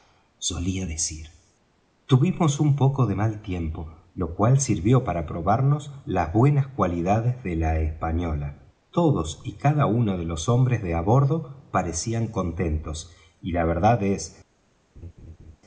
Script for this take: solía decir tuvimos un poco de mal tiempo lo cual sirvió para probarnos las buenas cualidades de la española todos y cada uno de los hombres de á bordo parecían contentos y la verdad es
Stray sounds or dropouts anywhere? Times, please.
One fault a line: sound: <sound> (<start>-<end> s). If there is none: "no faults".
sound: laugh (15.0-15.6 s)